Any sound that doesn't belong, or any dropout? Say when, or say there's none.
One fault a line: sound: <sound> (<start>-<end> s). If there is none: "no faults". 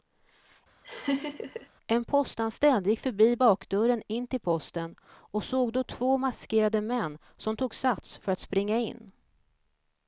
sound: laugh (0.8-1.7 s)